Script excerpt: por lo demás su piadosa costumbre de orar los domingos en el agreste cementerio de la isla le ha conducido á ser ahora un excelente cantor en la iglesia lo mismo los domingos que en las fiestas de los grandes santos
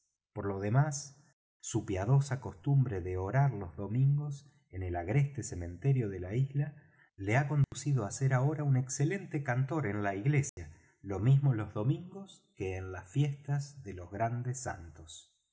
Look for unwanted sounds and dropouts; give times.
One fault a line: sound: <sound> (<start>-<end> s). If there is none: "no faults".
sound: dropout (7.6-7.7 s)
sound: dropout (10.5-10.6 s)